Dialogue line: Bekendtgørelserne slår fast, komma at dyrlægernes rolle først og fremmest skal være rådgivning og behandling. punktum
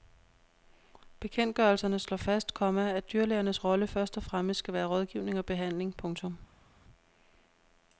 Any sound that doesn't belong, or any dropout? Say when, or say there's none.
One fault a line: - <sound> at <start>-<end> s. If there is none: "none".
none